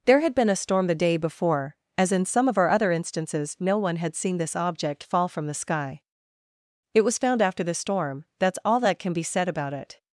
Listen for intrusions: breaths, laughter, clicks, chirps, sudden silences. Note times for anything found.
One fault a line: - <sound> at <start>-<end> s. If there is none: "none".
none